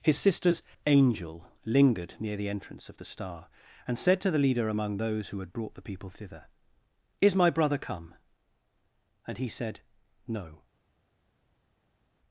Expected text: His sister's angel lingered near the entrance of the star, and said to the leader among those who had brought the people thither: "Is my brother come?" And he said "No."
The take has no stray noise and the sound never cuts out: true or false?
true